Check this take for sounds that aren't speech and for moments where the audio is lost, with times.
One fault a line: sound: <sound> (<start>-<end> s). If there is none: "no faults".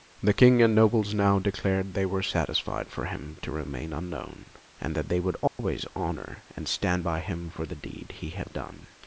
sound: dropout (5.5-5.6 s)